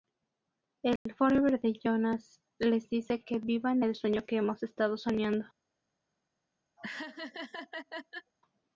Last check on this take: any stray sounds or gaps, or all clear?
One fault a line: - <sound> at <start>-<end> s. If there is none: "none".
- dropout at 1.0-1.1 s
- laugh at 6.8-8.3 s